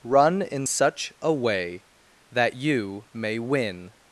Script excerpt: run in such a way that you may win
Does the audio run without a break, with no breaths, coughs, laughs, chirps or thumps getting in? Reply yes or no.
yes